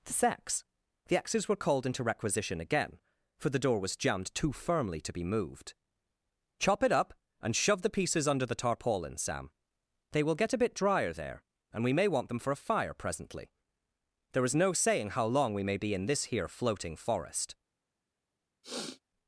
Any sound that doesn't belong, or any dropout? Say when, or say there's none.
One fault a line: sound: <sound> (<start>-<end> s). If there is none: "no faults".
sound: sniff (18.6-19.0 s)